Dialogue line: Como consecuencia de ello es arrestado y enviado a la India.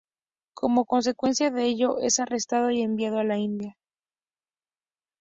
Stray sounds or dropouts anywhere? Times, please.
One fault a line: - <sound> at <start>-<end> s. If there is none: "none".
none